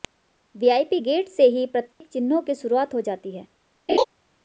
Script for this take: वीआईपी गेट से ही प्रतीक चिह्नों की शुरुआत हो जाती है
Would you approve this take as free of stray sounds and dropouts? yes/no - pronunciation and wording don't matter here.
no